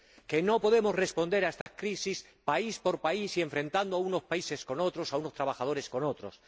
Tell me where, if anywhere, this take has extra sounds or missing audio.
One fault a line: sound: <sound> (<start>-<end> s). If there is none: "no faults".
sound: dropout (1.6-1.7 s)